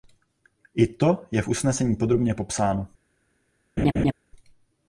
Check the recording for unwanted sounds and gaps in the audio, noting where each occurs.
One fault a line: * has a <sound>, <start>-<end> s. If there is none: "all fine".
* has a laugh, 3.8-4.1 s